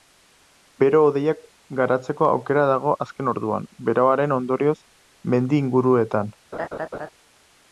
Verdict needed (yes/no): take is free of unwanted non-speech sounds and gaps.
no